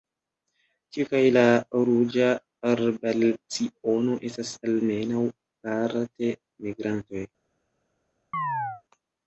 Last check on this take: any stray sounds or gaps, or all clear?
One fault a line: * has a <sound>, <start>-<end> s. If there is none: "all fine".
* has a chirp, 8.3-8.8 s